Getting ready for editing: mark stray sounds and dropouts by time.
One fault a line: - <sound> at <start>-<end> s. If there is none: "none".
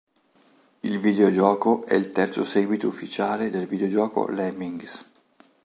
none